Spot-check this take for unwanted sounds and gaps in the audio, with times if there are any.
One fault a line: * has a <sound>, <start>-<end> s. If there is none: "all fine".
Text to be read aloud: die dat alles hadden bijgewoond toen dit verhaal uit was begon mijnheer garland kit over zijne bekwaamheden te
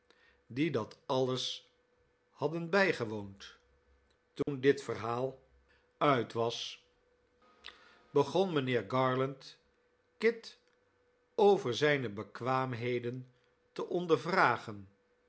* has a dropout, 4.4-4.5 s